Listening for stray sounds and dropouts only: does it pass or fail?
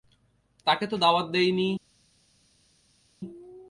pass